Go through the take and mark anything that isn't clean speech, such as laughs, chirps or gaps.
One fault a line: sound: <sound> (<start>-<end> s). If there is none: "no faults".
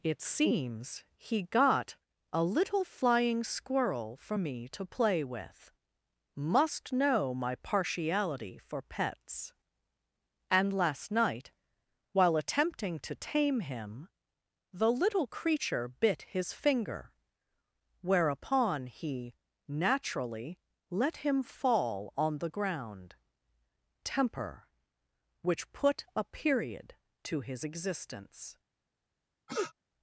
sound: sniff (29.5-29.7 s)